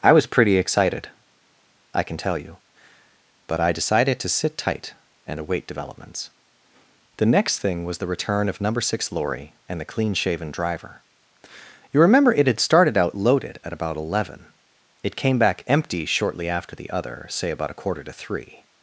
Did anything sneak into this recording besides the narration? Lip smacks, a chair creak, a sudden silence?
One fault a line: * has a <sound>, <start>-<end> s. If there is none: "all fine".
all fine